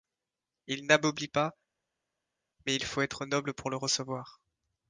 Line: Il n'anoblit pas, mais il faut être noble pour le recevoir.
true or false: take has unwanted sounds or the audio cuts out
false